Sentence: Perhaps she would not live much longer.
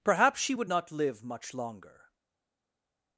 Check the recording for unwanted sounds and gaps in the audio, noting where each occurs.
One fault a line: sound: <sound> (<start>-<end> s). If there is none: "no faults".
no faults